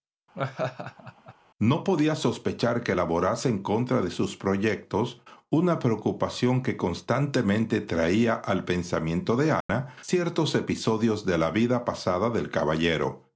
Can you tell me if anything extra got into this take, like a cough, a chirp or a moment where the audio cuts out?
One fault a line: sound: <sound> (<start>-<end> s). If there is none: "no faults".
sound: laugh (0.3-1.3 s)
sound: dropout (9.6-9.7 s)